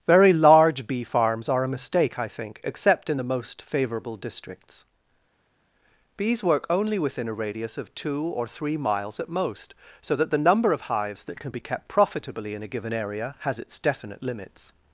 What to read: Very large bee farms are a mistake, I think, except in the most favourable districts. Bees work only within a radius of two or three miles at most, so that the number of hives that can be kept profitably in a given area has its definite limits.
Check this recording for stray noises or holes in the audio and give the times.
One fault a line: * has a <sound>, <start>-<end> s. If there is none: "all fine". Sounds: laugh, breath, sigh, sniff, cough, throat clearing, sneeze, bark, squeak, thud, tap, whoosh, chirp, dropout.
all fine